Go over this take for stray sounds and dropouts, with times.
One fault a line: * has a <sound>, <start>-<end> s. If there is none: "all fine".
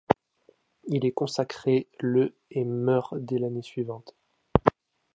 all fine